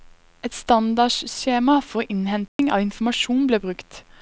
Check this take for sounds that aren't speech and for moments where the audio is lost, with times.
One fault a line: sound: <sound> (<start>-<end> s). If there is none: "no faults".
sound: dropout (2.5-2.6 s)